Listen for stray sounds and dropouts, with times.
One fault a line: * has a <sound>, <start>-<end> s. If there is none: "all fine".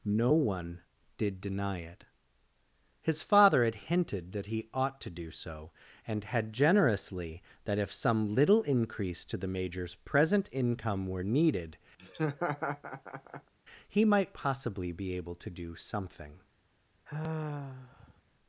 * has a laugh, 12.0-13.5 s
* has a sigh, 17.1-18.2 s